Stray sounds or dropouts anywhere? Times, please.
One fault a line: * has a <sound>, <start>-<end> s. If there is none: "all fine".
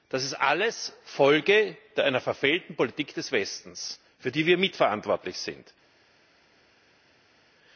all fine